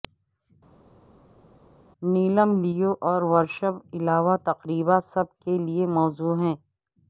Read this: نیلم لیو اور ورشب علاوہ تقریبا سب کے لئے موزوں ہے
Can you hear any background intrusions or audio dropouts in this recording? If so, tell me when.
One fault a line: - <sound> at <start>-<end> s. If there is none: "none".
none